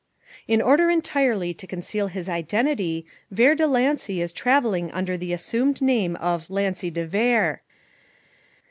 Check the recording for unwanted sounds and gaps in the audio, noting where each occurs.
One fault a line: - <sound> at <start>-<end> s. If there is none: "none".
none